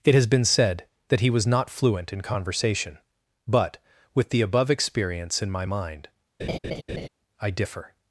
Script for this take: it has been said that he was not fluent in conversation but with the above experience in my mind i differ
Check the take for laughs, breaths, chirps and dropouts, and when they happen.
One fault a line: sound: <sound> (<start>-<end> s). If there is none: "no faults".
sound: laugh (6.4-7.1 s)